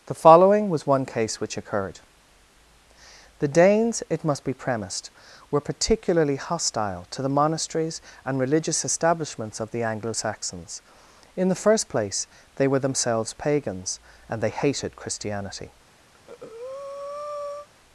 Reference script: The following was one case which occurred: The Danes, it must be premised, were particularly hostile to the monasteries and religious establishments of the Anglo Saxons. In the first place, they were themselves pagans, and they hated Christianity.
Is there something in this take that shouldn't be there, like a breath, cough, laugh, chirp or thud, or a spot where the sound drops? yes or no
yes